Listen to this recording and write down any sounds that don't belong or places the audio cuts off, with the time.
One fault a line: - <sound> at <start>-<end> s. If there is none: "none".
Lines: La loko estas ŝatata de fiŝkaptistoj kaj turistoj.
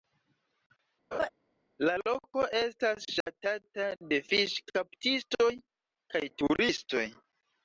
- laugh at 1.1-1.3 s
- dropout at 3.2-3.3 s